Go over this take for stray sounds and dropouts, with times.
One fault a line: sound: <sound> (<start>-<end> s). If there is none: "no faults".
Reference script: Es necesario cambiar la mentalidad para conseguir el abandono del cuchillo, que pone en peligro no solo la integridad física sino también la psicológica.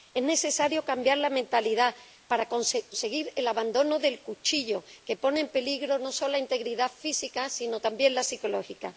no faults